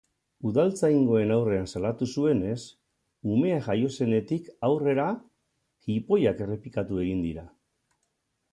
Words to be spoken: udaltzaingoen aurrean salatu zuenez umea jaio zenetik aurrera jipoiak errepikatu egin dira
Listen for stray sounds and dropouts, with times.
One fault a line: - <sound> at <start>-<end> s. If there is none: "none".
none